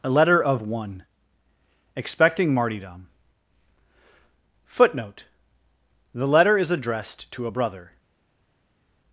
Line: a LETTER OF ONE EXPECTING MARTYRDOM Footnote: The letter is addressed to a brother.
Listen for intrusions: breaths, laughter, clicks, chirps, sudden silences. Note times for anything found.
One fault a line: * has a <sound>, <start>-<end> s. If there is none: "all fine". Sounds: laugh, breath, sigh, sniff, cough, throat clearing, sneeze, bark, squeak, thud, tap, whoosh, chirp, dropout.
all fine